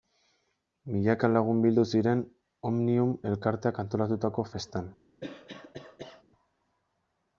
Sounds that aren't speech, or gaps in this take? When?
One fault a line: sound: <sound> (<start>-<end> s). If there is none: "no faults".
sound: cough (5.2-6.2 s)